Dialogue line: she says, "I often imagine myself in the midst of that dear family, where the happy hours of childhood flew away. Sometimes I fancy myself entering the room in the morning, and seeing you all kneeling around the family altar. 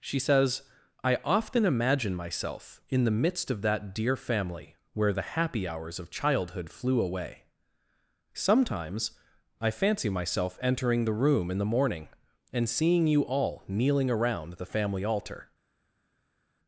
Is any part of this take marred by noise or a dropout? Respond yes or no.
no